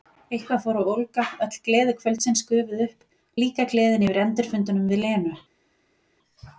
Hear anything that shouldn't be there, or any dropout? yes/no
no